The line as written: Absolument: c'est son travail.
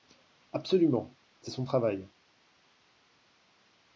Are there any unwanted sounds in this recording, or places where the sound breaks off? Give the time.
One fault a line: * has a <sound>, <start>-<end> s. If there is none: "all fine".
all fine